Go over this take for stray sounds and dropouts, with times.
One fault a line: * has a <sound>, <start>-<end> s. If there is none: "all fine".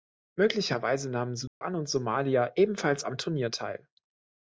* has a dropout, 1.5-1.6 s